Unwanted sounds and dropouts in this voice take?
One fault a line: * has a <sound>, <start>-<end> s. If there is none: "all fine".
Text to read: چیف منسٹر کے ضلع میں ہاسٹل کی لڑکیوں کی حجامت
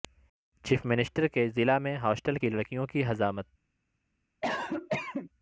* has a cough, 4.4-5.3 s